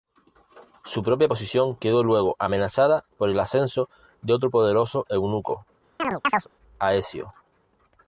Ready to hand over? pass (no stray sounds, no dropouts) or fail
fail